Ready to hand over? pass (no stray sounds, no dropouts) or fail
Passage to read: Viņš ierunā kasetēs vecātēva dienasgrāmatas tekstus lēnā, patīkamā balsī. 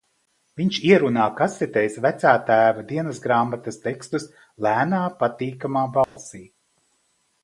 fail